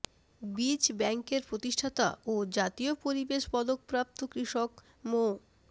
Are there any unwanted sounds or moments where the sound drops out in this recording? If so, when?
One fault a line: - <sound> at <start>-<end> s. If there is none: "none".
none